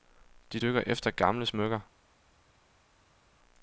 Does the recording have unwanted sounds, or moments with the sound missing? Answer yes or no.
no